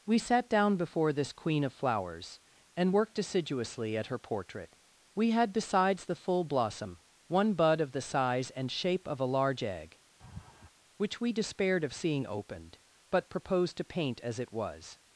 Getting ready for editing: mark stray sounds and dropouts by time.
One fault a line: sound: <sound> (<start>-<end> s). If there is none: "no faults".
sound: laugh (10.2-10.7 s)